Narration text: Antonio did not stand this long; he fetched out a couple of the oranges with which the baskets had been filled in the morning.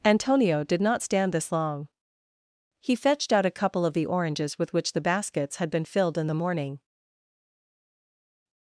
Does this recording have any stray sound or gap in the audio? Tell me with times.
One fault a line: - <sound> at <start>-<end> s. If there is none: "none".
none